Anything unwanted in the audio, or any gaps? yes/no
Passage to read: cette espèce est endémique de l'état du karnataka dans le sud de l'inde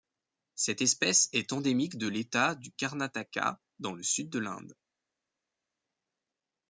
no